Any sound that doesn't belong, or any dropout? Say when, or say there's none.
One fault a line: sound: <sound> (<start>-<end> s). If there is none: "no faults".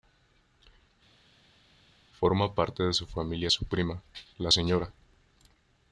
no faults